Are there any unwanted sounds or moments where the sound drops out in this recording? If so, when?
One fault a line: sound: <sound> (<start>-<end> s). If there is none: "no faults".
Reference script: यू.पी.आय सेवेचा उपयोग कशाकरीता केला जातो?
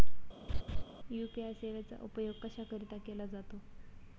sound: laugh (0.5-0.8 s)